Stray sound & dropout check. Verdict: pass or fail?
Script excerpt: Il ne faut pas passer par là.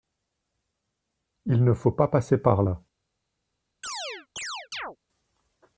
fail